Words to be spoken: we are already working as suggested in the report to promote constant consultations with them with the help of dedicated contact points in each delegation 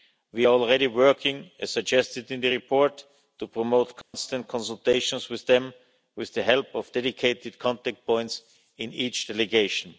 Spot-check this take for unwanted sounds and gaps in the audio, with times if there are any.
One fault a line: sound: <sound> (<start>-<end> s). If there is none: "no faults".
sound: dropout (4.0-4.1 s)